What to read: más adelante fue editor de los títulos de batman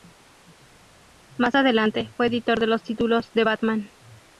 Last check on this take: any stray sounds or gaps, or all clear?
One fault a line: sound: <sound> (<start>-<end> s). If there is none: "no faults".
no faults